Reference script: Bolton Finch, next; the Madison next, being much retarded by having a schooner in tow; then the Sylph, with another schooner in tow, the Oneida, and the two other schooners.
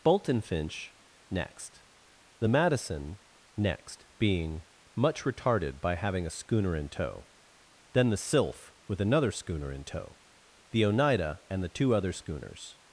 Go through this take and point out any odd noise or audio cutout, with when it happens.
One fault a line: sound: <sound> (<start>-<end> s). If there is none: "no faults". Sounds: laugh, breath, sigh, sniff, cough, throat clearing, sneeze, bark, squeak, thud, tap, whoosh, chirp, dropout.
no faults